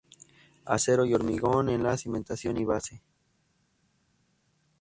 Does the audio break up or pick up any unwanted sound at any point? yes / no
no